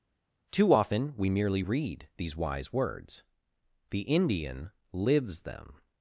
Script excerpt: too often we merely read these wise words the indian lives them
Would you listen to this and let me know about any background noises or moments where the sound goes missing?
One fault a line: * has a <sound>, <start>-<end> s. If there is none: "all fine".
all fine